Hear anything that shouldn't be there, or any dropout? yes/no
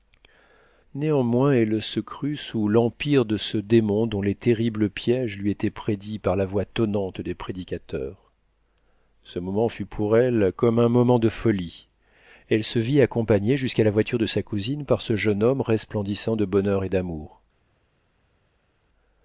no